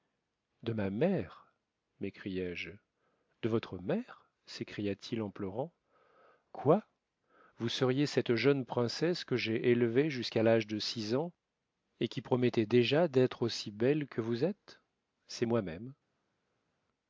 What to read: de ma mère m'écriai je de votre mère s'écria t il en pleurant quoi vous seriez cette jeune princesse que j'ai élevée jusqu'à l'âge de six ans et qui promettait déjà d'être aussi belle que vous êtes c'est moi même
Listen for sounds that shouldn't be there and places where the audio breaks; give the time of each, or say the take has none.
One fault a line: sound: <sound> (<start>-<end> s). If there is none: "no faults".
no faults